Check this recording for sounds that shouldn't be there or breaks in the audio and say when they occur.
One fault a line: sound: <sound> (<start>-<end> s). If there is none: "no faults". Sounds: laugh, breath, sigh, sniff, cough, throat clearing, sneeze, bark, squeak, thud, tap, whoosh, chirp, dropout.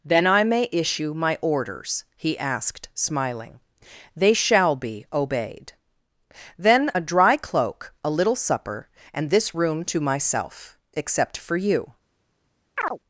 sound: chirp (12.8-13.0 s)